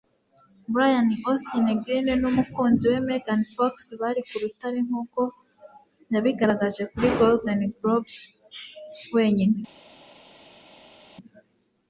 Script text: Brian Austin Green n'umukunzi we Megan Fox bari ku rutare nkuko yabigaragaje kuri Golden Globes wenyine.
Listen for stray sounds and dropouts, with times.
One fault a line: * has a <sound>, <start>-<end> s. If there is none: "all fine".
all fine